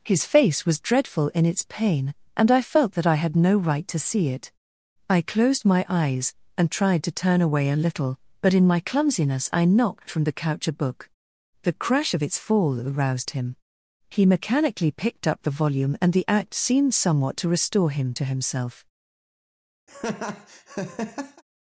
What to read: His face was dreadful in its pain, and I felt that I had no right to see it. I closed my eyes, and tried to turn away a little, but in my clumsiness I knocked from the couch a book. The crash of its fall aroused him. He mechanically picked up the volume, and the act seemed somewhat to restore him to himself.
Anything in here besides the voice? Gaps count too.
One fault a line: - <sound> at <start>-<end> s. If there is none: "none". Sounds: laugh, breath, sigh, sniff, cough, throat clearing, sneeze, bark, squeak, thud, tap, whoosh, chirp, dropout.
- laugh at 19.9-21.4 s